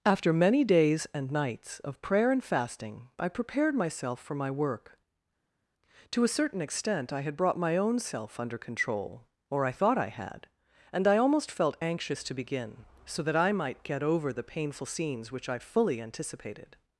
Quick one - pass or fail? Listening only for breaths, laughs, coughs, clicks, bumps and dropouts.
pass